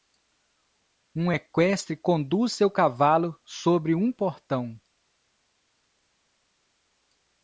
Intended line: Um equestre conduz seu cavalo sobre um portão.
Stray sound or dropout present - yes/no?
no